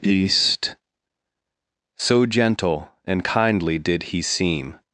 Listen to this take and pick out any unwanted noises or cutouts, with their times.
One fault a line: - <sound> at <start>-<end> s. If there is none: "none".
none